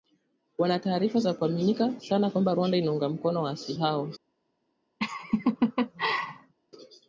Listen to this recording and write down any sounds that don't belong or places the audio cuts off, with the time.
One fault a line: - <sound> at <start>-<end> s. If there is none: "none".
- laugh at 5.0-6.5 s